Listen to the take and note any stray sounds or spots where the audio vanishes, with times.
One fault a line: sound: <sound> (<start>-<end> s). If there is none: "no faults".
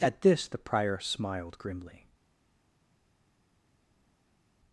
no faults